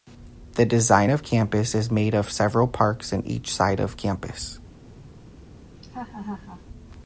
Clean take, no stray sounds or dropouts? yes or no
no